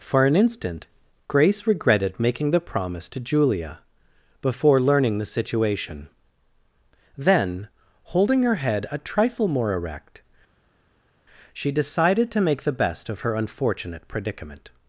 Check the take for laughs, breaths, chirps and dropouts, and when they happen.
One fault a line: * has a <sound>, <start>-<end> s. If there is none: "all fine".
all fine